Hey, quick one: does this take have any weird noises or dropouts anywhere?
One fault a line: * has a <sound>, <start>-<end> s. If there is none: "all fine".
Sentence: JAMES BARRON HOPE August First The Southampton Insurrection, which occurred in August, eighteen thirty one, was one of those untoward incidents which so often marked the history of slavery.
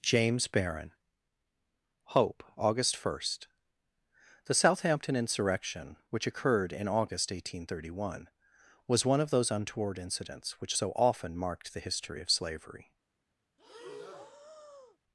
* has a breath, 13.6-15.0 s